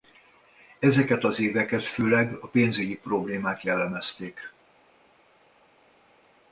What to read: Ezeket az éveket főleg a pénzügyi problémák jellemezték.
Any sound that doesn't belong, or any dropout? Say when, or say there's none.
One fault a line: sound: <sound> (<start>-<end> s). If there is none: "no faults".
no faults